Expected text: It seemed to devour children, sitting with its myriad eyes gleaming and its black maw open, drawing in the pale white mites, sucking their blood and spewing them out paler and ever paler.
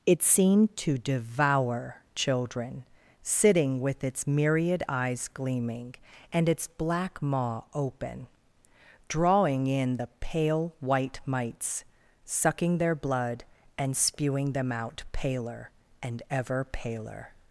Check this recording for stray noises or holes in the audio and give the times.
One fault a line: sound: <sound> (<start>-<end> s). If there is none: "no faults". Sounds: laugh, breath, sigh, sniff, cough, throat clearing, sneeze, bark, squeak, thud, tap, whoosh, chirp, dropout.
no faults